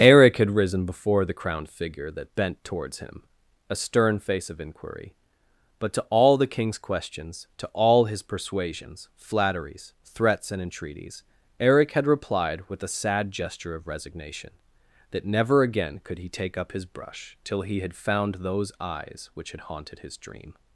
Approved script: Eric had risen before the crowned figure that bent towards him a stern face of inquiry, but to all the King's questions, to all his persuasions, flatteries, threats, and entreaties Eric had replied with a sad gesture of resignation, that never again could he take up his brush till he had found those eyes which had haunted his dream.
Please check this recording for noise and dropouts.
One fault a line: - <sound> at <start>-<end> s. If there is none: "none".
none